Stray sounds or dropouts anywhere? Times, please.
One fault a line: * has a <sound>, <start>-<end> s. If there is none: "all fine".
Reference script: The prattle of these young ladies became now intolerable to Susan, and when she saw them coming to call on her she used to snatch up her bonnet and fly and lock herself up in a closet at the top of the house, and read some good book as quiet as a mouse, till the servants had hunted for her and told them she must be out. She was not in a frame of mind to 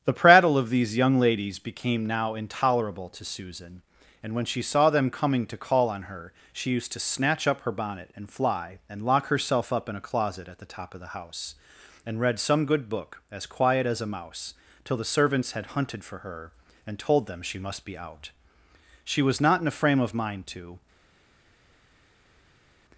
all fine